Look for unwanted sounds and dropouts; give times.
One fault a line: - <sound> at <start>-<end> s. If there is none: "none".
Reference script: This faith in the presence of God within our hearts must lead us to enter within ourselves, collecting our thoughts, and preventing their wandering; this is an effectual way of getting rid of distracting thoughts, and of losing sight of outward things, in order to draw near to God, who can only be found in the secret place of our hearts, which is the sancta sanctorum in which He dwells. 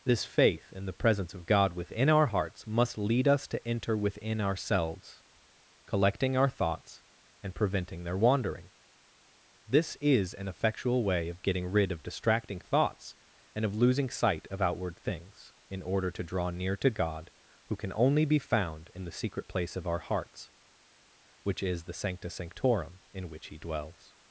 none